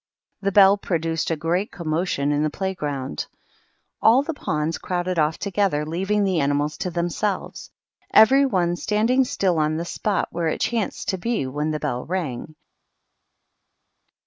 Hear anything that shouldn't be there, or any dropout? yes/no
no